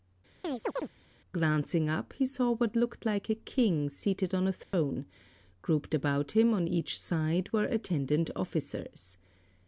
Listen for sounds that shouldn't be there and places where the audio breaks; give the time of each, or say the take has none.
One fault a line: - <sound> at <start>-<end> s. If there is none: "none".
- chirp at 0.4-0.9 s
- dropout at 4.6-4.7 s